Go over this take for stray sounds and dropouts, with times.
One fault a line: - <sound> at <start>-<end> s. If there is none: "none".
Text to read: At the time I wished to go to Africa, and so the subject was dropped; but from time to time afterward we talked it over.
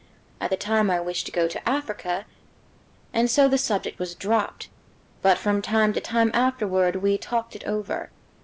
none